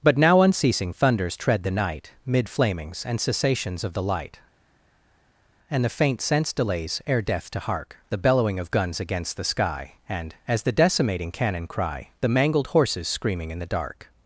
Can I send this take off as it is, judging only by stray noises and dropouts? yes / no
yes